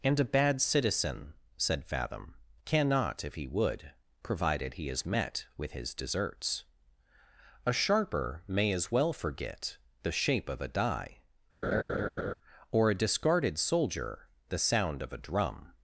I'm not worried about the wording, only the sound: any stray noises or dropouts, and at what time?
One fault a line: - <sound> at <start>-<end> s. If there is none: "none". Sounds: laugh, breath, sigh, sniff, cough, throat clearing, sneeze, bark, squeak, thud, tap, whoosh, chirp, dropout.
- laugh at 11.6-12.3 s